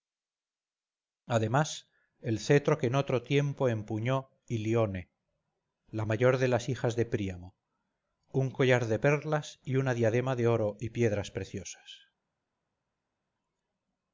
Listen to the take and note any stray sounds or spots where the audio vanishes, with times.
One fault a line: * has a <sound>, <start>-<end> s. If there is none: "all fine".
all fine